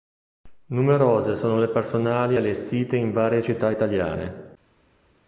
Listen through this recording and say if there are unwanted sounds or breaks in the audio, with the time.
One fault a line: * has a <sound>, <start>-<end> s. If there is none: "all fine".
all fine